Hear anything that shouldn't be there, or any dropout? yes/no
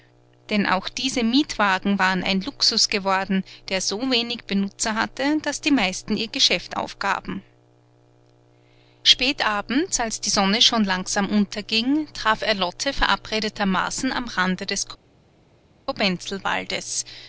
no